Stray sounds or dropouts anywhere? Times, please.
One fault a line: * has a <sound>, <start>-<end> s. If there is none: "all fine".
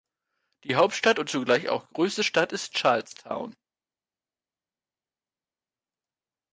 all fine